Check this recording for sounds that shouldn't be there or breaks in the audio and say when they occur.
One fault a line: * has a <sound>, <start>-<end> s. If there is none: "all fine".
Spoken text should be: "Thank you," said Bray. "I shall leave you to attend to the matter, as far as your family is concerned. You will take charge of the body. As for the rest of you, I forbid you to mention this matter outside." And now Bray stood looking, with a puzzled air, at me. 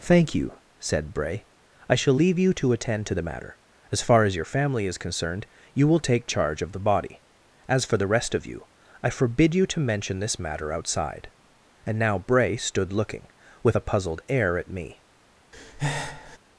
* has a breath, 15.5-16.4 s